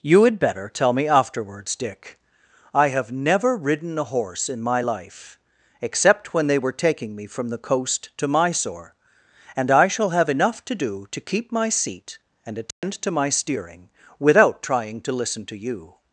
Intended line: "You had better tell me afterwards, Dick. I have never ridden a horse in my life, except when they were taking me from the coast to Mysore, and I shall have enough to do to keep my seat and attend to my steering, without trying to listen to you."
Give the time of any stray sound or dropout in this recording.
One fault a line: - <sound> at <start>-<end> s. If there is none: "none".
- dropout at 12.7-12.8 s